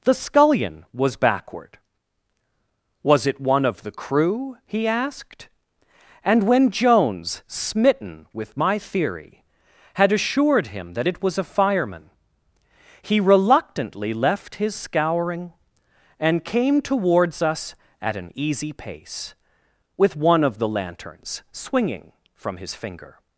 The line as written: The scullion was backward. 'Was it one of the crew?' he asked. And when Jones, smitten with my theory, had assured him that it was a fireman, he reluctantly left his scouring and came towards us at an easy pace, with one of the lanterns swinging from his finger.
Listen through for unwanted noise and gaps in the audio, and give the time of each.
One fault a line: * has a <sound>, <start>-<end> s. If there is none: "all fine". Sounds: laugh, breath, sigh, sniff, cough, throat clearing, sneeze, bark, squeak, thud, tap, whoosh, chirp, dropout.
all fine